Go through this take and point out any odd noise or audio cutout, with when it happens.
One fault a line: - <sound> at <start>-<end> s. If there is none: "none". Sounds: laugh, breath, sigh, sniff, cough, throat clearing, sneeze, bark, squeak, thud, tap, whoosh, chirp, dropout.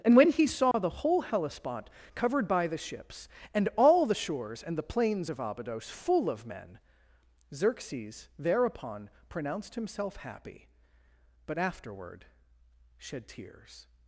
- dropout at 0.7-0.7 s